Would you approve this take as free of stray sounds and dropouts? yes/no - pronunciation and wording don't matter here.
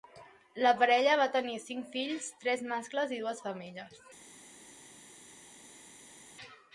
yes